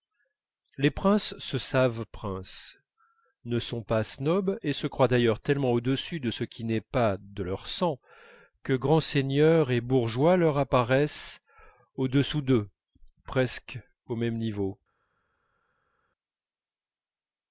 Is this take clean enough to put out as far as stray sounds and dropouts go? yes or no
yes